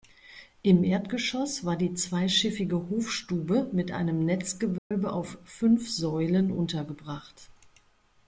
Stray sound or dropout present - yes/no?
yes